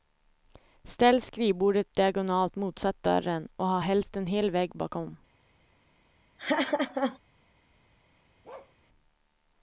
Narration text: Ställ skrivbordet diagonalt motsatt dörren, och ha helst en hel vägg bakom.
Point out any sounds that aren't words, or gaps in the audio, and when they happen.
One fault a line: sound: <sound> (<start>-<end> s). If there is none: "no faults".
sound: laugh (6.4-7.2 s)
sound: bark (8.4-8.7 s)